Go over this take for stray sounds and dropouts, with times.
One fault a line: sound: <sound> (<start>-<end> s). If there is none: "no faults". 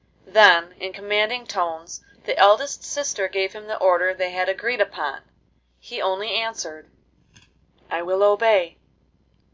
no faults